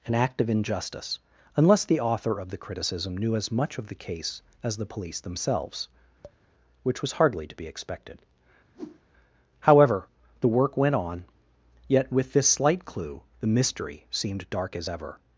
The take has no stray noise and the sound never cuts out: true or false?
false